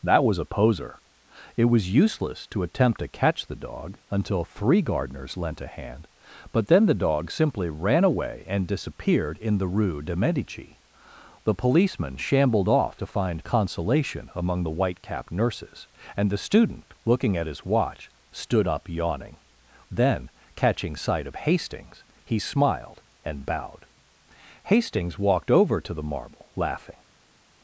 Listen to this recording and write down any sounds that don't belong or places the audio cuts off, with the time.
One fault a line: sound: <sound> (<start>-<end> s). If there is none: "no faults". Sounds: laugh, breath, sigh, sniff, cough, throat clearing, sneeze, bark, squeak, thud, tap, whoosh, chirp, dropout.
no faults